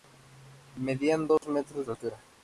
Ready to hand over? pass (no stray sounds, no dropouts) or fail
fail